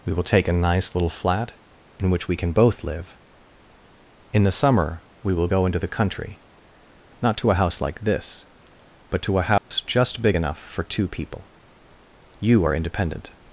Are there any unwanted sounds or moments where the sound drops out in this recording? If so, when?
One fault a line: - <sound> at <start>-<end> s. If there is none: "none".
- dropout at 9.6-9.7 s